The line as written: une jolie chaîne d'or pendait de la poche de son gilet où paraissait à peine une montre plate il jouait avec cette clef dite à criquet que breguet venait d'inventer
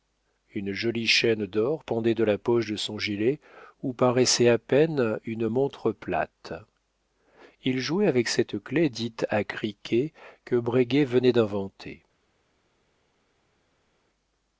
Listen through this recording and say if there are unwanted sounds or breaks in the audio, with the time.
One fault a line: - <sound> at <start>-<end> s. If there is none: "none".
none